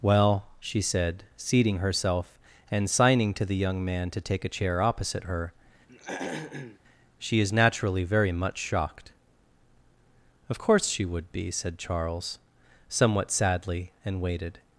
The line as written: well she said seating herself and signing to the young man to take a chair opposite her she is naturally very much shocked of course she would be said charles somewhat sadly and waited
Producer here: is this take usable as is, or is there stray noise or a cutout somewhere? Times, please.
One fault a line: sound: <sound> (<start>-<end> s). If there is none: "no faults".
sound: throat clearing (5.9-6.8 s)